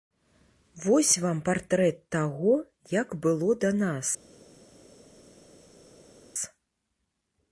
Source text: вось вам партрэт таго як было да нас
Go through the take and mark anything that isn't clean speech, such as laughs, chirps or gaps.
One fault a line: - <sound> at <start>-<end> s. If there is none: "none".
none